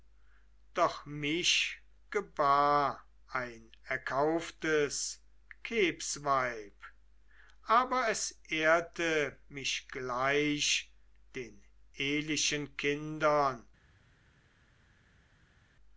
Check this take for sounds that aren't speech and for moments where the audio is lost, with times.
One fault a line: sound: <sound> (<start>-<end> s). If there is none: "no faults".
no faults